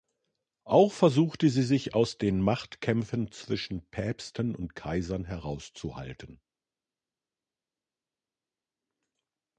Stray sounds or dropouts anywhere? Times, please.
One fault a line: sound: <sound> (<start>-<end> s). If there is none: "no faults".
no faults